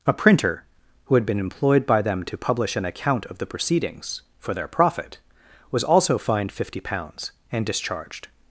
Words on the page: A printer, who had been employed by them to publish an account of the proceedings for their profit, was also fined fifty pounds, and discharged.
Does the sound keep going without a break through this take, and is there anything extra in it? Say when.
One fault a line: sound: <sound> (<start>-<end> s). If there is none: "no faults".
no faults